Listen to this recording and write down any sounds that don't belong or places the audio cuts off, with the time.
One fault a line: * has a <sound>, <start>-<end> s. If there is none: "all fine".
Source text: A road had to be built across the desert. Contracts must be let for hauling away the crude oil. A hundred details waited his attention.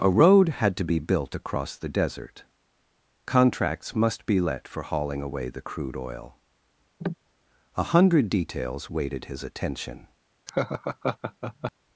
* has a cough, 7.0-7.1 s
* has a laugh, 10.5-11.7 s